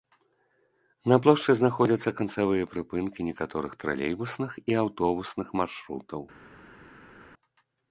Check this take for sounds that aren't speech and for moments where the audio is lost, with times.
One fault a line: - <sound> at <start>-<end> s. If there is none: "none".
none